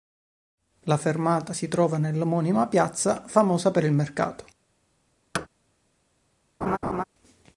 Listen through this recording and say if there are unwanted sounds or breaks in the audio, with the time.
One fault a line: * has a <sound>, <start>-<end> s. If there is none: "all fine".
* has a thud, 5.3-5.5 s
* has a laugh, 6.6-7.0 s